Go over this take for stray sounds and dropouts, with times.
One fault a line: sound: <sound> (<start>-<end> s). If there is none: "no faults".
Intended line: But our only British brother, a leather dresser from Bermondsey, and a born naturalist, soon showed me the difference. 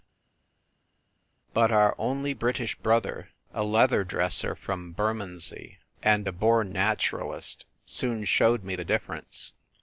no faults